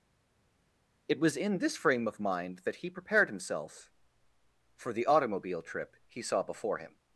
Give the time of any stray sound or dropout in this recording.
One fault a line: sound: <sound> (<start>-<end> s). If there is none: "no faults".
no faults